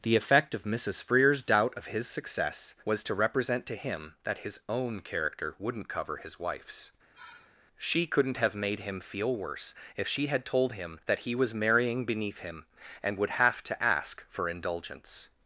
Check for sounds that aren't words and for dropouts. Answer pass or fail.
fail